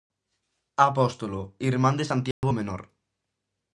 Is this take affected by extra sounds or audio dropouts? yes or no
yes